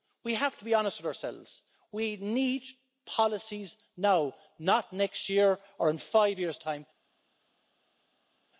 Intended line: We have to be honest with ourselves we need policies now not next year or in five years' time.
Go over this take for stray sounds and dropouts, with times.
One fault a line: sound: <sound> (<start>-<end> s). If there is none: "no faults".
no faults